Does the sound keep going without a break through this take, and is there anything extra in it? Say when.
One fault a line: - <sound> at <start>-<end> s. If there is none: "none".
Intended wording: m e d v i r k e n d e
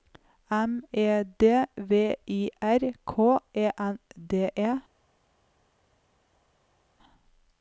none